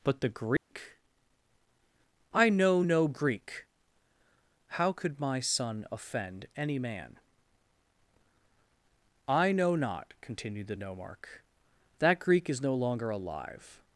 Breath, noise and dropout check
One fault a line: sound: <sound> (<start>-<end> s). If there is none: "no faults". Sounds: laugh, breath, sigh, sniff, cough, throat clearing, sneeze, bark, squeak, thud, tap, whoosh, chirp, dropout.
sound: dropout (0.6-0.7 s)